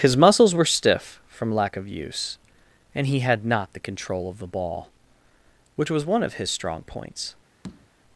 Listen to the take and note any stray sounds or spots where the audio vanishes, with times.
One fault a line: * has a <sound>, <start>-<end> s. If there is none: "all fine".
* has a tap, 7.6-7.9 s